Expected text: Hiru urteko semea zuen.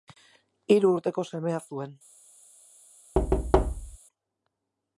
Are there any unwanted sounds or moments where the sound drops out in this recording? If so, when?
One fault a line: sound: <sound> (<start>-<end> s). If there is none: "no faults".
sound: thud (3.1-4.0 s)